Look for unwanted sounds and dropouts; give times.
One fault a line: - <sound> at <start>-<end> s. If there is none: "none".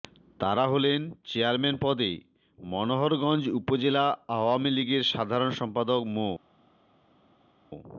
none